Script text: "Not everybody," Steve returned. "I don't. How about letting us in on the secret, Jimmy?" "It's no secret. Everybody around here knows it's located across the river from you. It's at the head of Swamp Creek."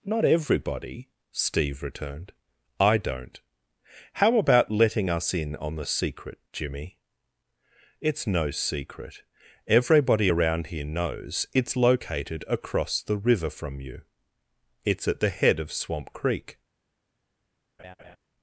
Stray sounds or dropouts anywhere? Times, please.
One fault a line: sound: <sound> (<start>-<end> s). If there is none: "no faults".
sound: laugh (17.8-18.2 s)